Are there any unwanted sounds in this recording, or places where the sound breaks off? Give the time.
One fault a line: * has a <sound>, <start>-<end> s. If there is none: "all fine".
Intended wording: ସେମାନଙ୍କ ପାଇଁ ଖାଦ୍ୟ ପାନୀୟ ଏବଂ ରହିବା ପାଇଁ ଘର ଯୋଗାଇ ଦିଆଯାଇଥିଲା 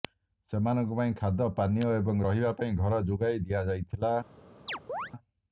* has a chirp, 4.7-5.1 s